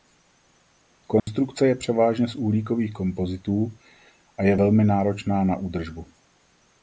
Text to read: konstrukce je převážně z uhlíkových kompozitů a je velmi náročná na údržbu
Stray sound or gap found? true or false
true